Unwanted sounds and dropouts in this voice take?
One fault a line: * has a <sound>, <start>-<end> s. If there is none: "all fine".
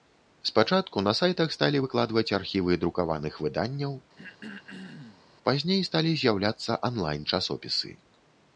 * has a throat clearing, 4.2-5.3 s